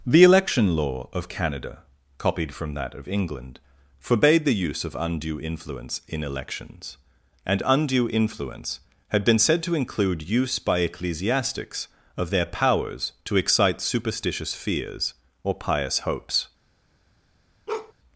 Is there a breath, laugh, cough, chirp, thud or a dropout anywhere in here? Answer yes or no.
yes